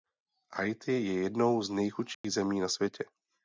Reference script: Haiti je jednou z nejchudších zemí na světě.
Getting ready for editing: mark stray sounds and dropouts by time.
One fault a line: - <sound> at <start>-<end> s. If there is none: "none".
- dropout at 2.1-2.2 s